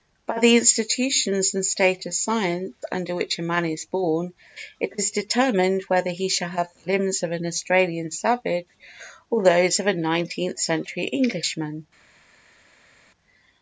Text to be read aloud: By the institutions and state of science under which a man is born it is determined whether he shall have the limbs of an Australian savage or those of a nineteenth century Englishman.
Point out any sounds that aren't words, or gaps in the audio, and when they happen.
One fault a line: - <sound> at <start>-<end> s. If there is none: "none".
none